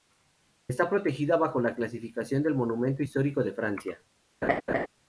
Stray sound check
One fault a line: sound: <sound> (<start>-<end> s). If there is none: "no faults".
sound: laugh (4.4-4.9 s)